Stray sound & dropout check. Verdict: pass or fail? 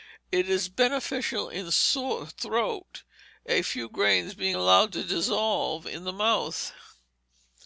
pass